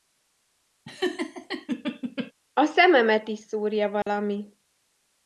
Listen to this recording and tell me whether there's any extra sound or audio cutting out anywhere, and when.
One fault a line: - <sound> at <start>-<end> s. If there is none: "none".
- laugh at 0.8-2.3 s
- dropout at 4.0-4.1 s